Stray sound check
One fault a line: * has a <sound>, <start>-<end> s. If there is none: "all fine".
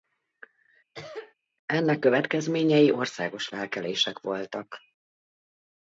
* has a cough, 0.9-1.3 s